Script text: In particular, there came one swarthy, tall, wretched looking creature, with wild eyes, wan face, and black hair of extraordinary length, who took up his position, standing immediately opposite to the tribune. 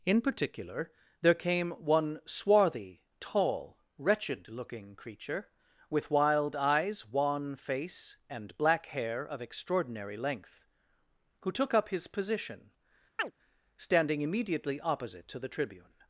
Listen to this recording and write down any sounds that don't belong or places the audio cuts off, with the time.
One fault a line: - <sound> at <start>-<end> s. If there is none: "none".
- chirp at 13.2-13.3 s